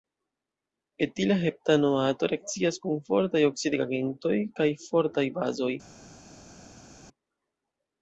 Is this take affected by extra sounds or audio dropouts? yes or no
no